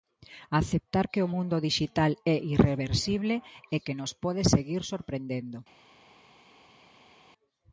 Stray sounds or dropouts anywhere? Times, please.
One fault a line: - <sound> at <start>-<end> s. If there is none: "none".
none